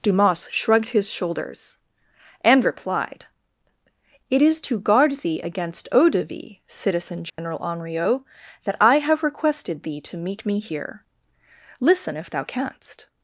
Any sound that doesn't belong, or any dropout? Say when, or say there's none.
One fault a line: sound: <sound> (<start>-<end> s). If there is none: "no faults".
sound: dropout (7.3-7.4 s)